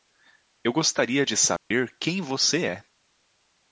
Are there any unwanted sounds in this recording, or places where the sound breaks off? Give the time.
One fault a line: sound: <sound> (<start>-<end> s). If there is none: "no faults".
sound: dropout (1.6-1.7 s)